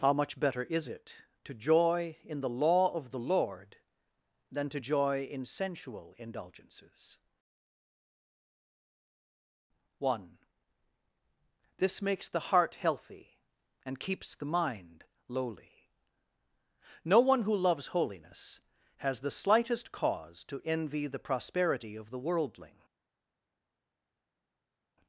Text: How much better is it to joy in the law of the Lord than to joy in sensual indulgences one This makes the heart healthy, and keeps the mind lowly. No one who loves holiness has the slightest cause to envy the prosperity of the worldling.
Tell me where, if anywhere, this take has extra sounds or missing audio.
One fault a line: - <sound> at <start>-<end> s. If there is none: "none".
none